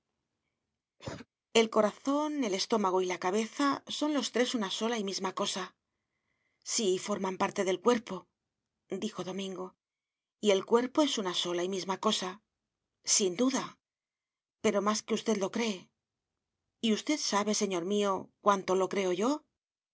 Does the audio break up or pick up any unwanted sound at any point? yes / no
yes